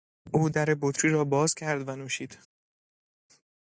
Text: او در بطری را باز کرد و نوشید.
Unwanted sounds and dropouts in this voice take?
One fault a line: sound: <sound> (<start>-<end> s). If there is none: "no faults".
no faults